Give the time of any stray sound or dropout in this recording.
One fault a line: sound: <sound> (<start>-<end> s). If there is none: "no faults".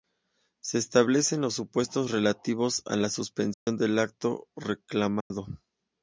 sound: dropout (3.5-3.7 s)
sound: dropout (5.2-5.3 s)